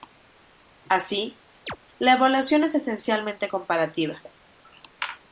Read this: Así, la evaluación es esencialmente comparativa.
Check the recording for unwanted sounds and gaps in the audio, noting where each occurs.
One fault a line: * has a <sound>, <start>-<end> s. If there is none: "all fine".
* has a chirp, 1.7-1.8 s